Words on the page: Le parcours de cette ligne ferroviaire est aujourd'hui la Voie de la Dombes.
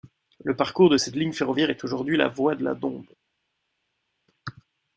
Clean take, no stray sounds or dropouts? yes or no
yes